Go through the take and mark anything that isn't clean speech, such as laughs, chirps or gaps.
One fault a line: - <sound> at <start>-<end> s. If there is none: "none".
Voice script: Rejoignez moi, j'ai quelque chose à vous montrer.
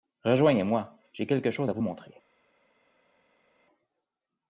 none